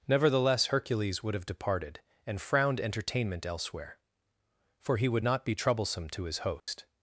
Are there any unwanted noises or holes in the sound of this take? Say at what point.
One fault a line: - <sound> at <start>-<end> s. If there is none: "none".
- dropout at 6.6-6.7 s